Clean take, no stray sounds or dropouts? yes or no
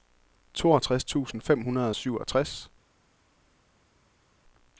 yes